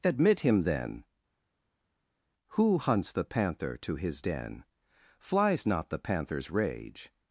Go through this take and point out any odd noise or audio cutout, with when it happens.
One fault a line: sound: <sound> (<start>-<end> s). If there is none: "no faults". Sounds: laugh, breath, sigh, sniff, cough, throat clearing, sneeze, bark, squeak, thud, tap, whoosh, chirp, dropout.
no faults